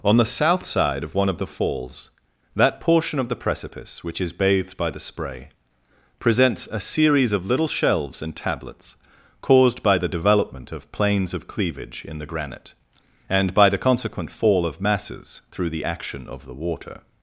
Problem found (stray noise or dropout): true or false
false